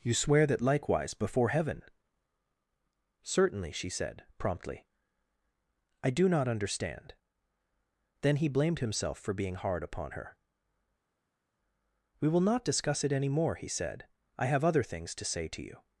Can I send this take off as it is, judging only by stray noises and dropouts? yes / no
yes